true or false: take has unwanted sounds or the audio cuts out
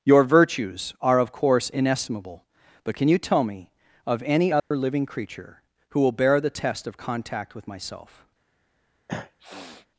true